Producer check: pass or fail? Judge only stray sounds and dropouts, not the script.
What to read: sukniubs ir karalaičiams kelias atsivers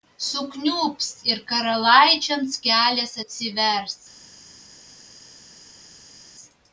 pass